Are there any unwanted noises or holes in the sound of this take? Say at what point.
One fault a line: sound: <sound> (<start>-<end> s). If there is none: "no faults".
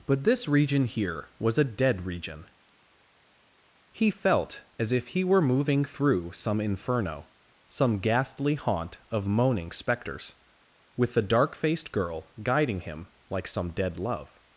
no faults